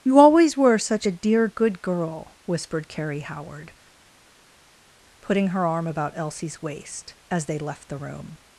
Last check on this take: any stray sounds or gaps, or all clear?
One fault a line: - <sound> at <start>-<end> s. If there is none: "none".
none